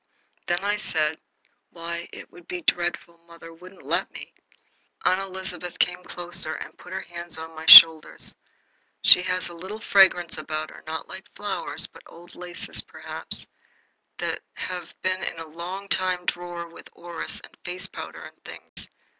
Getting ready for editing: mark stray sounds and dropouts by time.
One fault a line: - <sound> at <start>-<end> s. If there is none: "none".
- dropout at 18.7-18.8 s